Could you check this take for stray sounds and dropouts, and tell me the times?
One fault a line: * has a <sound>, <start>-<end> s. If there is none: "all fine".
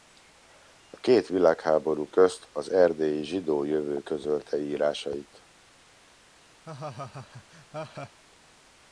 * has a laugh, 6.6-8.2 s